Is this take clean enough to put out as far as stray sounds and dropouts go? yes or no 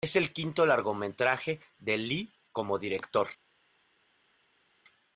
yes